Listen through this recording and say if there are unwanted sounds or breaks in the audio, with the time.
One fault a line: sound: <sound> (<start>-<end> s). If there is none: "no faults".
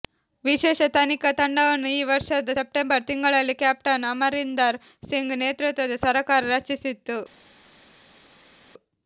no faults